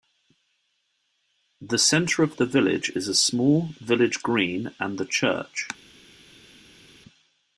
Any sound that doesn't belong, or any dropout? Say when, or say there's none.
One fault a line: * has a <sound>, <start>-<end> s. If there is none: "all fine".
all fine